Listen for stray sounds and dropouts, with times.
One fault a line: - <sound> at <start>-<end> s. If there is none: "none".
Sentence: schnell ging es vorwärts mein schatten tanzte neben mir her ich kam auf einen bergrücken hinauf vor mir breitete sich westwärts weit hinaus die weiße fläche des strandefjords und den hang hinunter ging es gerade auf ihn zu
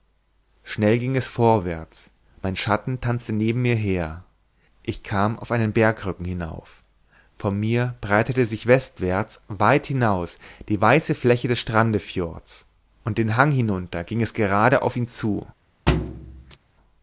- thud at 15.9-16.6 s